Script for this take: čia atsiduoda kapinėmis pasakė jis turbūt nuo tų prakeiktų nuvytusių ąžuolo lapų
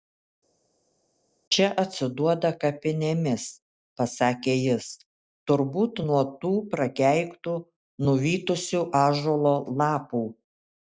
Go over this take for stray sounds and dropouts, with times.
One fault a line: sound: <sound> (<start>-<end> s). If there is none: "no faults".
no faults